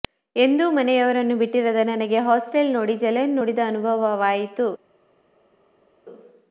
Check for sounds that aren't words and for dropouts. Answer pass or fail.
pass